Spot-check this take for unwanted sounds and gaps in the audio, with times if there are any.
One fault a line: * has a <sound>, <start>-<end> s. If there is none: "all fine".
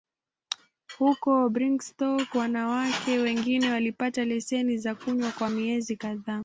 all fine